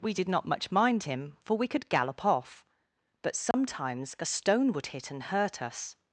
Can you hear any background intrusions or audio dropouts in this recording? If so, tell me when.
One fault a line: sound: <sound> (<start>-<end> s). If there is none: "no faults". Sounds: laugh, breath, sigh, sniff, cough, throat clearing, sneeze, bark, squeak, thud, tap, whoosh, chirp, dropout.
sound: dropout (3.5-3.5 s)